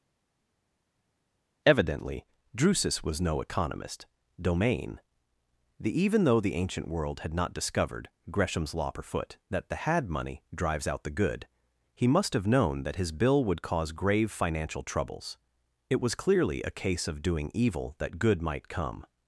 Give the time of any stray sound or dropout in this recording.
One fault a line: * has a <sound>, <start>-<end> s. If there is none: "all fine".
all fine